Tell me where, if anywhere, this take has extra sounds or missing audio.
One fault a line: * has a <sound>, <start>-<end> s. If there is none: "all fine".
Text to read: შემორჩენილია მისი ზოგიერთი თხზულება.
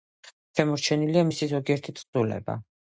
all fine